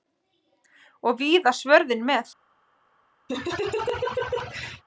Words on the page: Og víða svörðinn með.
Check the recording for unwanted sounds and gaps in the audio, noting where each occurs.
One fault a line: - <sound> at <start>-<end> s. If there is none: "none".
- laugh at 3.3-4.8 s